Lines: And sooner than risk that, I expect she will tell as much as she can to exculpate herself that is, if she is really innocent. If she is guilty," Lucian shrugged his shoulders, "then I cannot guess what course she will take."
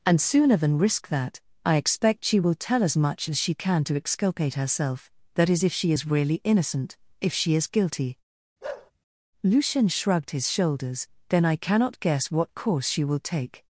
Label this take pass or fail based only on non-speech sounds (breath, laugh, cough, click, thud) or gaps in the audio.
fail